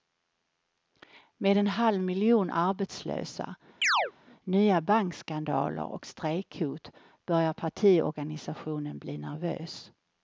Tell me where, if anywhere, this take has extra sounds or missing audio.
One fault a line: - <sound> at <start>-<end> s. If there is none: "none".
- chirp at 3.8-4.1 s